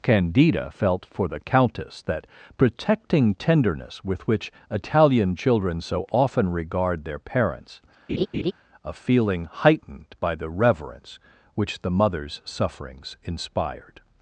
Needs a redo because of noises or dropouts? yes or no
yes